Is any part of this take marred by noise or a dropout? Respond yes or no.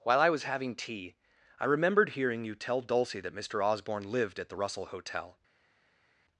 no